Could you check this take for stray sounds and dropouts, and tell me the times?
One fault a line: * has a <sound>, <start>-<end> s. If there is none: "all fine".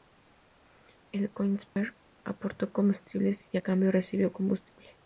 * has a dropout, 1.7-1.8 s